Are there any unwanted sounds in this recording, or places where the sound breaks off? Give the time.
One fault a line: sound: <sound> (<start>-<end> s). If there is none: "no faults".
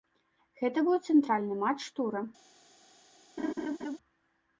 sound: laugh (3.4-4.0 s)